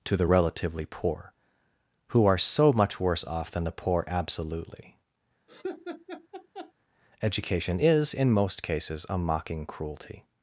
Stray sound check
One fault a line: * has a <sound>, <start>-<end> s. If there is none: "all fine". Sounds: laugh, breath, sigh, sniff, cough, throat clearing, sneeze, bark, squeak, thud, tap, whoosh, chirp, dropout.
* has a laugh, 5.5-6.7 s